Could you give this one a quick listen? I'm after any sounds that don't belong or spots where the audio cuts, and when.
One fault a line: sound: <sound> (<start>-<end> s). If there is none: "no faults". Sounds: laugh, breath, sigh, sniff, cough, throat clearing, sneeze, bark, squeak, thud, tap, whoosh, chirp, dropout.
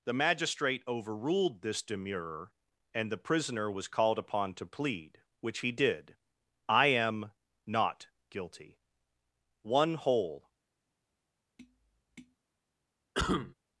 sound: tap (11.6-12.4 s)
sound: cough (13.1-13.5 s)